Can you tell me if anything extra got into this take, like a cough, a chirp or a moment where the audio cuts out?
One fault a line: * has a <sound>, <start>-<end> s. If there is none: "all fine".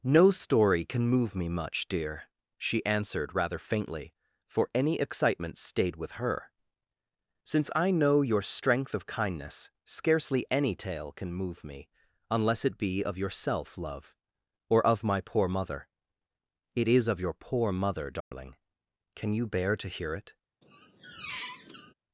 * has a dropout, 18.2-18.3 s
* has a squeak, 20.6-21.9 s